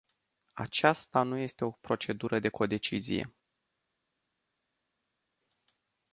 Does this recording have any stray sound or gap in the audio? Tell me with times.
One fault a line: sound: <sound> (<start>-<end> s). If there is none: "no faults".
no faults